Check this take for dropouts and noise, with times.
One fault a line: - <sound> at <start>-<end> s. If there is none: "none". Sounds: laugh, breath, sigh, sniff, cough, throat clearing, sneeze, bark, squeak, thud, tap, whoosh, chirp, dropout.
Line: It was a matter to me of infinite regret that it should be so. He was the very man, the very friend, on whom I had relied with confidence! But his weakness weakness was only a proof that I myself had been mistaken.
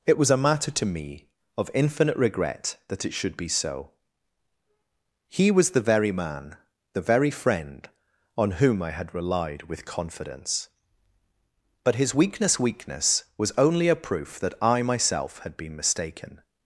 none